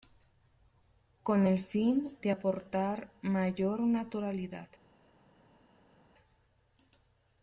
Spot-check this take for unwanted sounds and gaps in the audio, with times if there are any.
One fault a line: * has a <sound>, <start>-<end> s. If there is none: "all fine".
all fine